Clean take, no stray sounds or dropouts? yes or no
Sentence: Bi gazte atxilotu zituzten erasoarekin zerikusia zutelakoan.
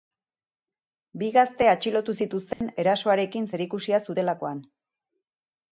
no